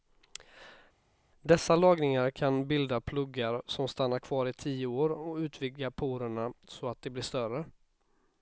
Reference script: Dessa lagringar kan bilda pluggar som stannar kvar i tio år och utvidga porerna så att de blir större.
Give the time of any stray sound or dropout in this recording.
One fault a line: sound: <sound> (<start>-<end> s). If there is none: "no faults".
no faults